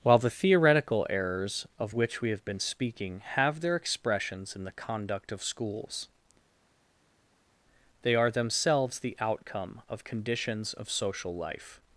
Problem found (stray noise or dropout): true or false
false